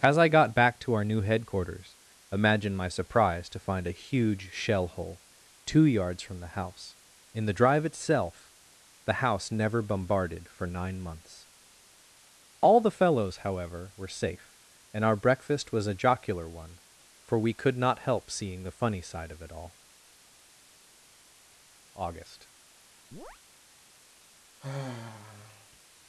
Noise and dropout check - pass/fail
fail